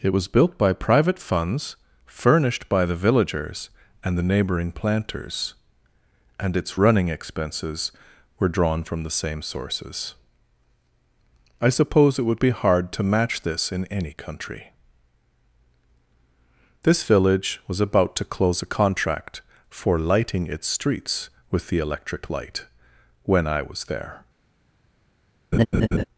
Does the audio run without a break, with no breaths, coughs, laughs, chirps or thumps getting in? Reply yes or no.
no